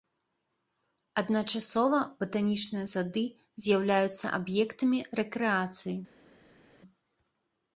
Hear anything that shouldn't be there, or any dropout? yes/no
no